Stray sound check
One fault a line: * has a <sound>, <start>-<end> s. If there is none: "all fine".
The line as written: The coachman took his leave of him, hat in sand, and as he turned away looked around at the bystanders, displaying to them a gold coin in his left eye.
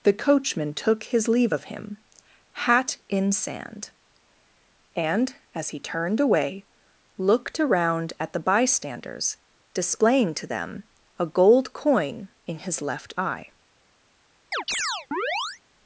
* has a chirp, 14.5-15.6 s